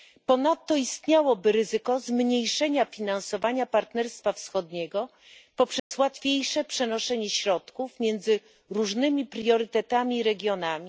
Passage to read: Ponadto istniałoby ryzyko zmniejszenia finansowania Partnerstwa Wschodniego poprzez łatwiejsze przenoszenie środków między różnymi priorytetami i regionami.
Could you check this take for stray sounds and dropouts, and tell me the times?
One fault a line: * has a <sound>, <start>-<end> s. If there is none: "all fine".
* has a dropout, 5.8-5.9 s